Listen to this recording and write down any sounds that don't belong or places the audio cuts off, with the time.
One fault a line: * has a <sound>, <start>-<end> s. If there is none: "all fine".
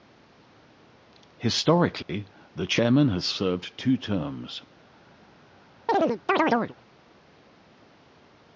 * has a dropout, 2.0-2.1 s
* has a chirp, 5.9-6.8 s